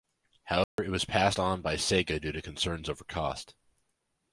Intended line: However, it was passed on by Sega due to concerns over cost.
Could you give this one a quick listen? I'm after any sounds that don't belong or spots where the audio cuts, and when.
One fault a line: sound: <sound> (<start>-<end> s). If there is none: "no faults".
sound: dropout (0.6-0.8 s)